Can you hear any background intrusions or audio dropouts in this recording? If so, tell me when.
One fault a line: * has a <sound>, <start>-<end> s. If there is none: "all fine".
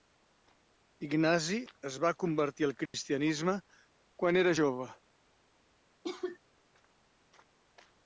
* has a dropout, 2.9-2.9 s
* has a cough, 6.0-6.4 s